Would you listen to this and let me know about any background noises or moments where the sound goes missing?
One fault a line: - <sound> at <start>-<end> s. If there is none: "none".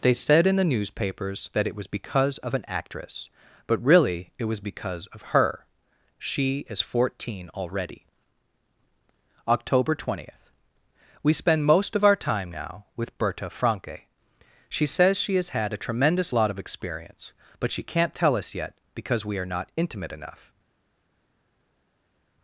none